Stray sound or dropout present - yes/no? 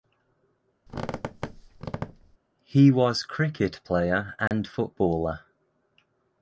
yes